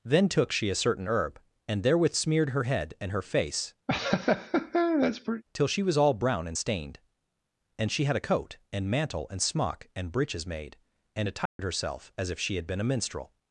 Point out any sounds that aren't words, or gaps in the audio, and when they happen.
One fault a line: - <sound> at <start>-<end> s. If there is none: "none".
- laugh at 3.9-5.4 s
- dropout at 11.5-11.6 s